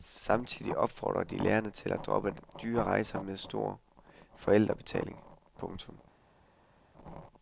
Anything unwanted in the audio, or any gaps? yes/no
no